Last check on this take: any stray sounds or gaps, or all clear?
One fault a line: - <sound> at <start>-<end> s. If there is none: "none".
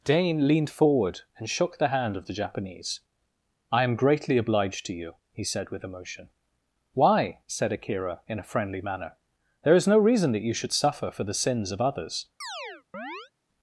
- chirp at 12.4-13.3 s